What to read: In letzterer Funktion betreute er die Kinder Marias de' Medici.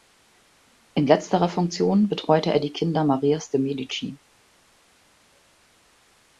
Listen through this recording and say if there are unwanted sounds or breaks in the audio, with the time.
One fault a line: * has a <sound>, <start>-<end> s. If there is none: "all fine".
all fine